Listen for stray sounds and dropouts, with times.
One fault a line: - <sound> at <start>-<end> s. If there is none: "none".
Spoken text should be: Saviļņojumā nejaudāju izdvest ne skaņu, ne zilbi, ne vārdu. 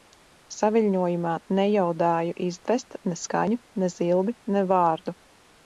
none